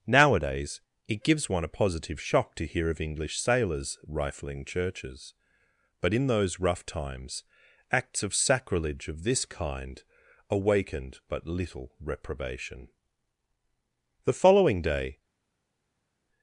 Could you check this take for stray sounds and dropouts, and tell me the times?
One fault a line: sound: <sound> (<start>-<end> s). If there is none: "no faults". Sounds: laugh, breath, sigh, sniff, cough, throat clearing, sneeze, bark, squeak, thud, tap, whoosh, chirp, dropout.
no faults